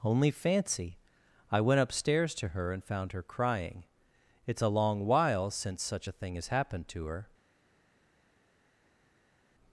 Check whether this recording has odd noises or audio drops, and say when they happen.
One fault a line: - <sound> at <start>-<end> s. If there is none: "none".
none